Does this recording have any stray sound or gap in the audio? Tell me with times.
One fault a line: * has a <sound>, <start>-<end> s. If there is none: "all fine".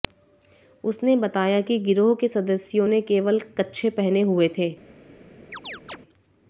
* has a chirp, 5.5-6.0 s